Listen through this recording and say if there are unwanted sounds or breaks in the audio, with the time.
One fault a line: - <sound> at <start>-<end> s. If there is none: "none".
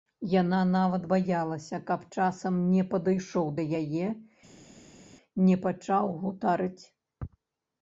none